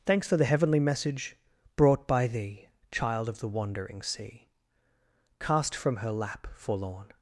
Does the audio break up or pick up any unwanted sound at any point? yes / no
no